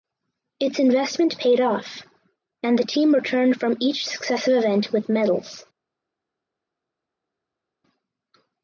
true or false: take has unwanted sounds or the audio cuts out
false